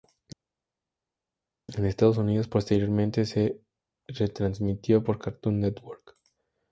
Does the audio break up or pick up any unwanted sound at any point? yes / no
no